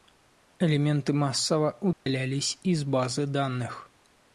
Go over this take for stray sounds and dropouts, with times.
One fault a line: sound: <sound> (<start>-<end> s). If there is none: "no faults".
sound: dropout (1.9-2.1 s)